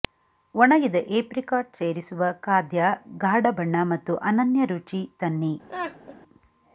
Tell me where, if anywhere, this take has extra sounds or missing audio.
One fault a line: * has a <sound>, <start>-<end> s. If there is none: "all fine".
* has a laugh, 5.7-6.2 s